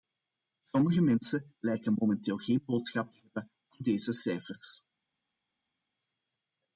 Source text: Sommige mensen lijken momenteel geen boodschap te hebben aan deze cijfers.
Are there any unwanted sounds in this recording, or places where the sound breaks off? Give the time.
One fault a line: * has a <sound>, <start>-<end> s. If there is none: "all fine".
all fine